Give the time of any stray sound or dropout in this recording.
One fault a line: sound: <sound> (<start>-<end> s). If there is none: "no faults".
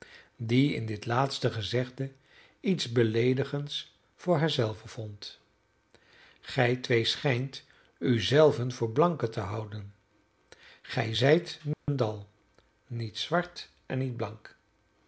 sound: dropout (11.7-11.9 s)